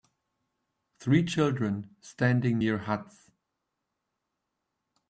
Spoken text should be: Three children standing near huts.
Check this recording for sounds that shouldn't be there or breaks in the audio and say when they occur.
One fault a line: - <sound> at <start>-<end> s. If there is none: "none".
none